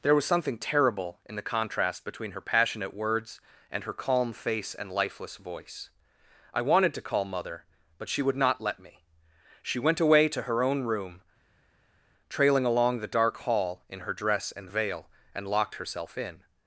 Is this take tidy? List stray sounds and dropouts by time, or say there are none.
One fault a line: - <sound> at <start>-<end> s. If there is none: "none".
none